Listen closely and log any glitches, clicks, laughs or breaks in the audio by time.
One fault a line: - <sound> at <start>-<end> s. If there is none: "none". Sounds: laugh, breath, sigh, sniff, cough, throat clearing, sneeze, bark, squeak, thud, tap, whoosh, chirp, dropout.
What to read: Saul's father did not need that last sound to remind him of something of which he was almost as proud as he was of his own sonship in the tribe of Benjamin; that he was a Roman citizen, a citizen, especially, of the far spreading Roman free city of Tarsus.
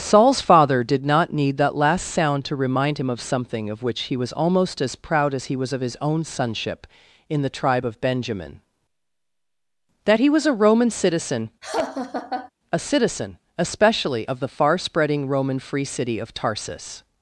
- laugh at 11.6-12.5 s